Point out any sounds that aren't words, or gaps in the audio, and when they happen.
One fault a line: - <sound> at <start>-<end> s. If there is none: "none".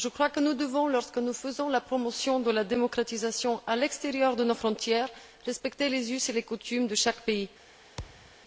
- thud at 8.0-8.4 s